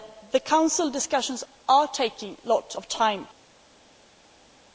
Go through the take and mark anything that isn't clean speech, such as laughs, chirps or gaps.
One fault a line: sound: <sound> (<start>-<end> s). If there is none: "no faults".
no faults